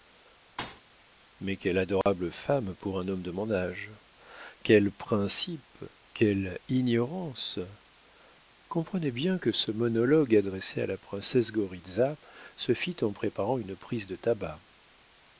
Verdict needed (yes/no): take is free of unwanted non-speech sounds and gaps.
no